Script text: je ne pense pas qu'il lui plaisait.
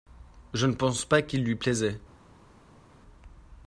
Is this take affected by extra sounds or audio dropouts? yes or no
no